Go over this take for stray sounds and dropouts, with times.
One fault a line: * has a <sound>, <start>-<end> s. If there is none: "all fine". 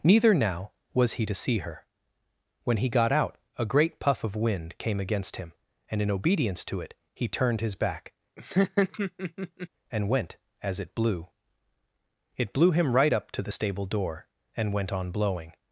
* has a laugh, 8.4-9.7 s